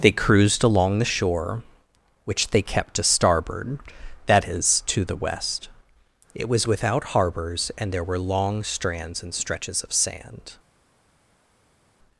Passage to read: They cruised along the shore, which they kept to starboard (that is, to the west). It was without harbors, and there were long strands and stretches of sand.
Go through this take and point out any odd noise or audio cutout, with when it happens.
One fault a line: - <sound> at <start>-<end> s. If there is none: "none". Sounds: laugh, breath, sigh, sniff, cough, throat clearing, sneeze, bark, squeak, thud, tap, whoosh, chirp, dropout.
none